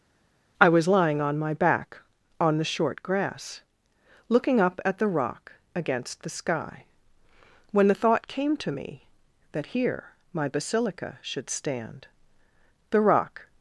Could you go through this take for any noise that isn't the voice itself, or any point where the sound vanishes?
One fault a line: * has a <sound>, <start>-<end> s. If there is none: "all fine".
all fine